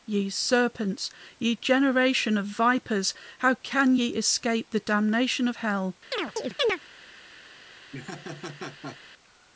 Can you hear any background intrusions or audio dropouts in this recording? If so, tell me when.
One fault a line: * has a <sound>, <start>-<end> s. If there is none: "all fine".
* has a chirp, 6.1-6.8 s
* has a laugh, 7.9-9.0 s